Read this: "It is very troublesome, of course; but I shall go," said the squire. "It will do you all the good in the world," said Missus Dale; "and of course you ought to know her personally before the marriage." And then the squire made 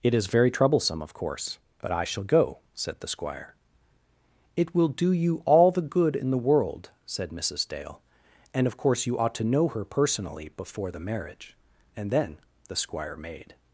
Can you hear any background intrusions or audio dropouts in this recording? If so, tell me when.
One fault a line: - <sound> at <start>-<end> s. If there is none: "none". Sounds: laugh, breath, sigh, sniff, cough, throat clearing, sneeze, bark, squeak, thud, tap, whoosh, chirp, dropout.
none